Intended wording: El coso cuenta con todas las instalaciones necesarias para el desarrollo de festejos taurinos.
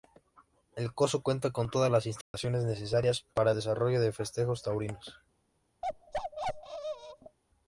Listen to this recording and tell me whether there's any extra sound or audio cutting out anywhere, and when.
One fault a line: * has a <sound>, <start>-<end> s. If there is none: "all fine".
* has a dropout, 2.2-2.3 s
* has a bark, 5.8-7.4 s